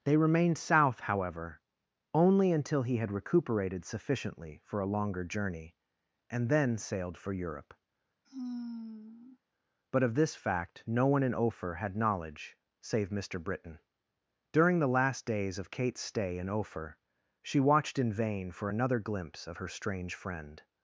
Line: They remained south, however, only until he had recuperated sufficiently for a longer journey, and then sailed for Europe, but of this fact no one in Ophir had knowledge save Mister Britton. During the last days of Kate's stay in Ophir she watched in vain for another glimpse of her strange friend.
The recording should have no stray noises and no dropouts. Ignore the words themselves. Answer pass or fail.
fail